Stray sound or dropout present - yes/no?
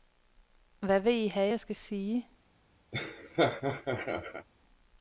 yes